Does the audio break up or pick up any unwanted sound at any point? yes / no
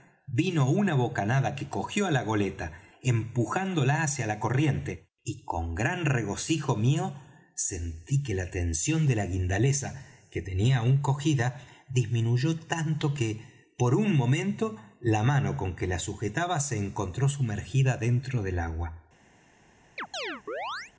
yes